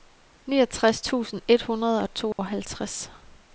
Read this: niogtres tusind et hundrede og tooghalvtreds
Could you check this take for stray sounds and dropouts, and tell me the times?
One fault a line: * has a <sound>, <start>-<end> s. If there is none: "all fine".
* has a dropout, 2.3-2.4 s